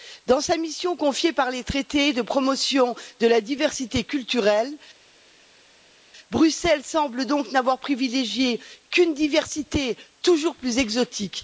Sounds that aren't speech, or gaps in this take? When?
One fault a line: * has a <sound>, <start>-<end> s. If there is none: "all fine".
all fine